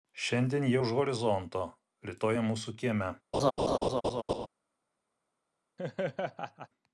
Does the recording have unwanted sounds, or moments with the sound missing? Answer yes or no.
yes